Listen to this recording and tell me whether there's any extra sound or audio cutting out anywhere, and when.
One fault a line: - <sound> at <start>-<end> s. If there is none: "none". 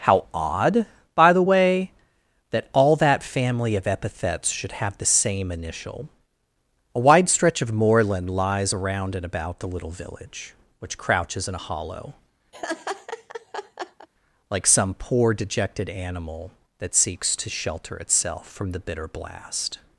- laugh at 12.5-14.1 s